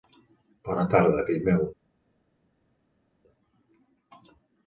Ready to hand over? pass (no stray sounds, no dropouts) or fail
pass